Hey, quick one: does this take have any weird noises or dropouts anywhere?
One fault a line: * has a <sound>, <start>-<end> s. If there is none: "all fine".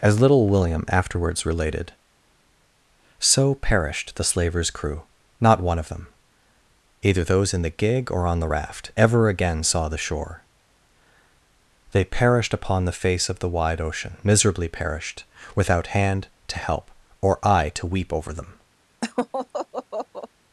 * has a laugh, 19.0-20.3 s